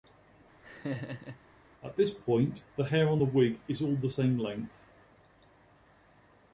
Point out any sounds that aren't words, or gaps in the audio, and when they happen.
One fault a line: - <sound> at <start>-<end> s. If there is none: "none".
- laugh at 0.6-1.4 s